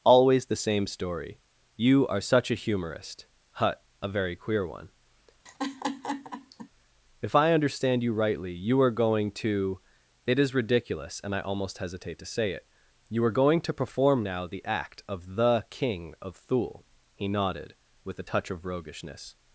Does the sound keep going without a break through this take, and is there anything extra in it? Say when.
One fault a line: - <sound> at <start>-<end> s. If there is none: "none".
- laugh at 5.5-6.7 s